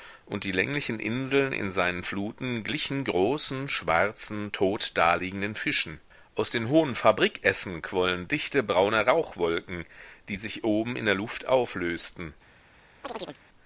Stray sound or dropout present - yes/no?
yes